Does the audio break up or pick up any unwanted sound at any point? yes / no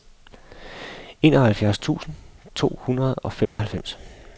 yes